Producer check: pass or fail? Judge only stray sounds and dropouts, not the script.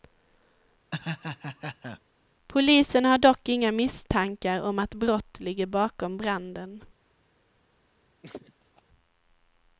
fail